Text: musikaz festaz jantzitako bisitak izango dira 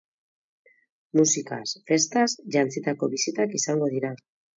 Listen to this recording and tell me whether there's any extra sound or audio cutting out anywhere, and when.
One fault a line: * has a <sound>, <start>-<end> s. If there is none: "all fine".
all fine